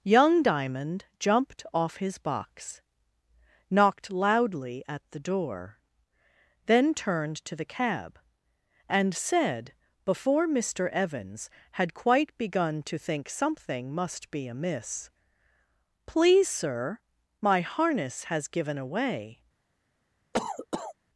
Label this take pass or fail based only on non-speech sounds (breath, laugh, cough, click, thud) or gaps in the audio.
fail